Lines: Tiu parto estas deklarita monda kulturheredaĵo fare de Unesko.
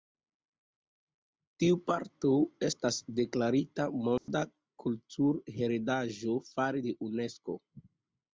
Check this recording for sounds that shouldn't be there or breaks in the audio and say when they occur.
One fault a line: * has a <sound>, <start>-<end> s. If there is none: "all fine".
* has a dropout, 4.2-4.3 s